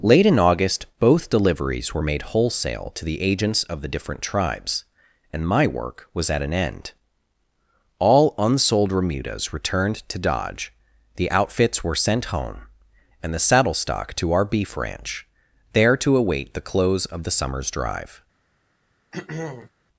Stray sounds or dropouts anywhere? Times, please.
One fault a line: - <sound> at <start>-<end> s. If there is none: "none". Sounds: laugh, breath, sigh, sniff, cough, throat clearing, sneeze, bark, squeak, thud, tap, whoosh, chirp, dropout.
- throat clearing at 19.1-19.7 s